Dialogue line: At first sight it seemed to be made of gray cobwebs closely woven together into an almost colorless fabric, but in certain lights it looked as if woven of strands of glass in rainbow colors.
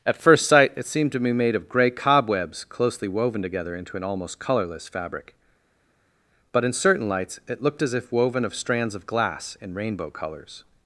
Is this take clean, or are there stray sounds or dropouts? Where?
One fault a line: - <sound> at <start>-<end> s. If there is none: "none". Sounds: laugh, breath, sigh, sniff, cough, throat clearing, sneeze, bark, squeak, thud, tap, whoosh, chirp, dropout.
none